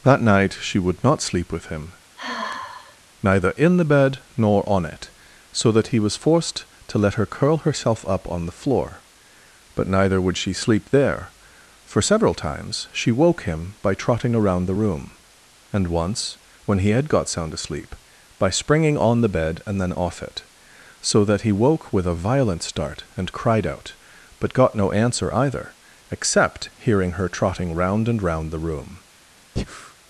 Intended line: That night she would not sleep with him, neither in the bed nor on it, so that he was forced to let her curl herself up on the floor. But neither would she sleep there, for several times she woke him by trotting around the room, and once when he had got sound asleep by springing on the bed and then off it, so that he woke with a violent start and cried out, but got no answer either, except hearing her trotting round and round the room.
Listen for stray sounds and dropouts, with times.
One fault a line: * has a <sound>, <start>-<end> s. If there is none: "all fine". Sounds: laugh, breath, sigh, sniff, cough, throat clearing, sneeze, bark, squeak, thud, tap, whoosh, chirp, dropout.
* has a sigh, 2.2-3.0 s
* has a breath, 29.6-29.9 s